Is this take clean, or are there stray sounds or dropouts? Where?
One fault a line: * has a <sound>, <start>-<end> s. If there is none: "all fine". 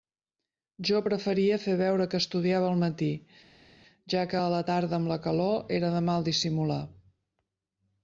all fine